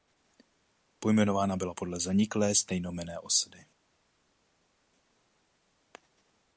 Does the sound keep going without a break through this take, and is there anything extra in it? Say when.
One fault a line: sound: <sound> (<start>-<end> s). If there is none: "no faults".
no faults